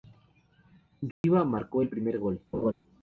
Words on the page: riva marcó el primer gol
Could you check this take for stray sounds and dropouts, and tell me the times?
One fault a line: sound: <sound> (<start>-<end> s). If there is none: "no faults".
sound: dropout (1.1-1.2 s)
sound: laugh (2.5-2.7 s)